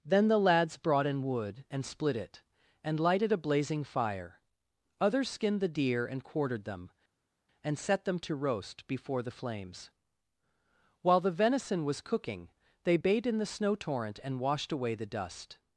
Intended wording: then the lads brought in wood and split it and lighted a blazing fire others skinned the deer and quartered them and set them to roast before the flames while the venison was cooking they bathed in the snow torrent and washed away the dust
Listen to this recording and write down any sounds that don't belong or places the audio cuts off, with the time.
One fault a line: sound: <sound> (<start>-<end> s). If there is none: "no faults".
no faults